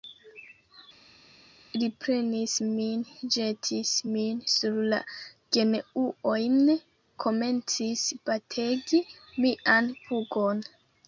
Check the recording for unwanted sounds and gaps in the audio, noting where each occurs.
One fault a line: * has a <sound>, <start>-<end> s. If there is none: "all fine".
all fine